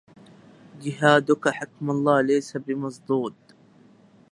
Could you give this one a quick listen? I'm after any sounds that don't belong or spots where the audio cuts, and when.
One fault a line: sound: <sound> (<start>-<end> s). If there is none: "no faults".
no faults